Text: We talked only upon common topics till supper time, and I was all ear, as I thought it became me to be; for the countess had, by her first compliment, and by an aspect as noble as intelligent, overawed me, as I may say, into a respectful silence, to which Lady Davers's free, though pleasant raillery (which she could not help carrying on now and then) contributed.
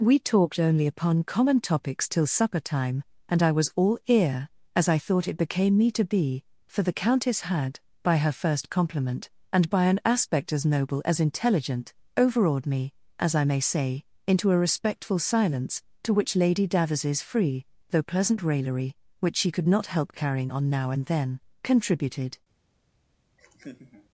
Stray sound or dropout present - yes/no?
yes